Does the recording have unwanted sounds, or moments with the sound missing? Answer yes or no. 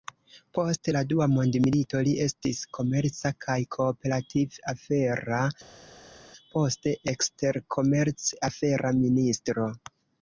no